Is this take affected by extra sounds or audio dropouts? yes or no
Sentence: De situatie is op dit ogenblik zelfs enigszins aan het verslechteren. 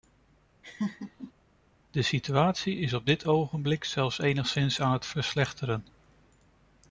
yes